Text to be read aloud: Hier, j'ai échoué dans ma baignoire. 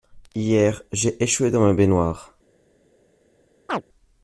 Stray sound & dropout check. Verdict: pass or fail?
fail